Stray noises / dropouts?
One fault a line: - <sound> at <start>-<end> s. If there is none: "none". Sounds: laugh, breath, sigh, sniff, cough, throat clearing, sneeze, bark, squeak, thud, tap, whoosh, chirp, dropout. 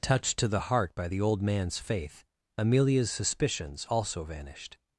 none